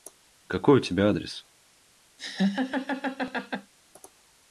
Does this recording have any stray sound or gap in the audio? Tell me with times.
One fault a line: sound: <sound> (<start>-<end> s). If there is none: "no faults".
sound: laugh (2.2-3.7 s)